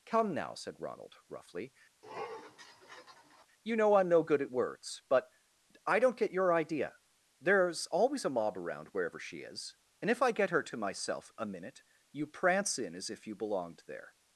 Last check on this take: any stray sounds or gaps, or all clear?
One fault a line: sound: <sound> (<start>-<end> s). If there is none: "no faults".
sound: sniff (2.0-3.5 s)